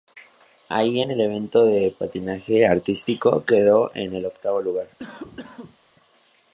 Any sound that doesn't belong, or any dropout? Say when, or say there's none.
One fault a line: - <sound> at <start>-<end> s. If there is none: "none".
- cough at 5.0-5.8 s